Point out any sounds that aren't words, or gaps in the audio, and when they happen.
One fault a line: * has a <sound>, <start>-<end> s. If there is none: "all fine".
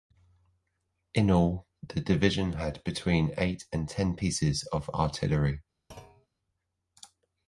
* has a thud, 5.9-6.3 s